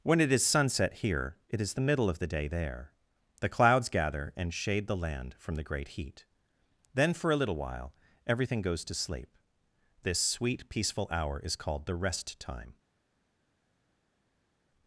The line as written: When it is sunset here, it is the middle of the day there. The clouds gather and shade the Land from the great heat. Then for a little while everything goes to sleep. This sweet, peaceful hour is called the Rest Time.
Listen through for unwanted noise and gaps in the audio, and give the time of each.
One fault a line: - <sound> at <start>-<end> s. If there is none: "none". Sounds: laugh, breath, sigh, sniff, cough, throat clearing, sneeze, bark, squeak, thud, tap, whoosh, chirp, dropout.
none